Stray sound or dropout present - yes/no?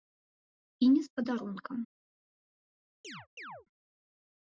yes